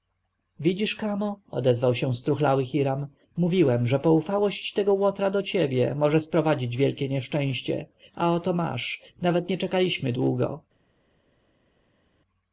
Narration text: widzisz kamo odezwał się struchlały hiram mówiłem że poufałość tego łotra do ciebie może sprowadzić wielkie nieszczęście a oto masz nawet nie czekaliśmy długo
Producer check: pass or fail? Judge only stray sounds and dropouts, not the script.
pass